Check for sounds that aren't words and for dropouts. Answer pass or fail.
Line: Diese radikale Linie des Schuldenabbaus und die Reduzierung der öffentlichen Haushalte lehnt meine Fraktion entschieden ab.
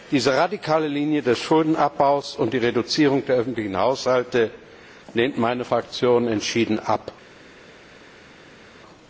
pass